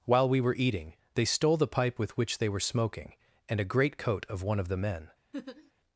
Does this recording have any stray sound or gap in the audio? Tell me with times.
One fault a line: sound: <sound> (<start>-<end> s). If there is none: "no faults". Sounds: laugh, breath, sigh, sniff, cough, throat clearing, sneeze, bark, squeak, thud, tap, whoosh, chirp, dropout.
sound: laugh (5.3-5.7 s)